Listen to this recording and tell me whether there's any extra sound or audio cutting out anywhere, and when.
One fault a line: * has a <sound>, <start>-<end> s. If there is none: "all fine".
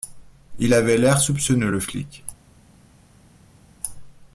all fine